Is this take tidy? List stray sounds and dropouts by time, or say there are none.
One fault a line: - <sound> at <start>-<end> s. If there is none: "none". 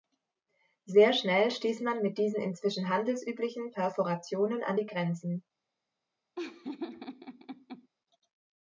- laugh at 6.4-7.9 s